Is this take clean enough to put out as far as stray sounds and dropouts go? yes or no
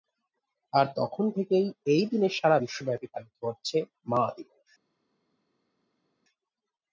yes